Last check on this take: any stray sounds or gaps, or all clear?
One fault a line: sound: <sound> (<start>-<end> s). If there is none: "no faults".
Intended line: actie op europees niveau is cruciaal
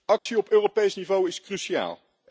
sound: dropout (0.2-0.3 s)